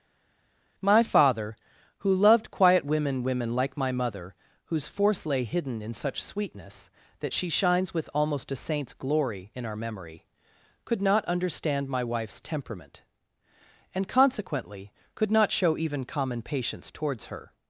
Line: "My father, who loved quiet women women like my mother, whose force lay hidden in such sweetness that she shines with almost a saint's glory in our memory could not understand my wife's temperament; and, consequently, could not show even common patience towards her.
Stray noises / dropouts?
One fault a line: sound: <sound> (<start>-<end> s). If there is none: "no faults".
no faults